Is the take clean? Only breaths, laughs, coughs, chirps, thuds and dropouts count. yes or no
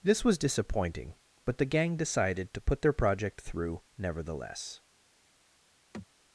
no